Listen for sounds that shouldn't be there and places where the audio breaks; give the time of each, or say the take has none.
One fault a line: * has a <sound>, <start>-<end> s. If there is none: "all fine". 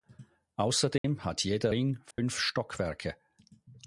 * has a dropout, 1.0-1.0 s
* has a dropout, 2.1-2.2 s